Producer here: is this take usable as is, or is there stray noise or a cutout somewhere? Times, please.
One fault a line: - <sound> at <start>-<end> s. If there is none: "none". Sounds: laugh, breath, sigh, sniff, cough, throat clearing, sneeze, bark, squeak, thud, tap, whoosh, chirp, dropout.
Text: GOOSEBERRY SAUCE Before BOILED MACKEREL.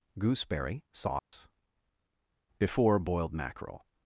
- dropout at 1.2-1.3 s